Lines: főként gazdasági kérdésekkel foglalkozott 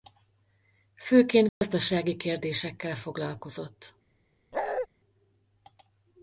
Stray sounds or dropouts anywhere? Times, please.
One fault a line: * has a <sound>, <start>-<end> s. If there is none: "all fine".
* has a dropout, 1.5-1.6 s
* has a bark, 4.5-4.9 s